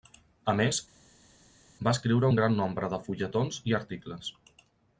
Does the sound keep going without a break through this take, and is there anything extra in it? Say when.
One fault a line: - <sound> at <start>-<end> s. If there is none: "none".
none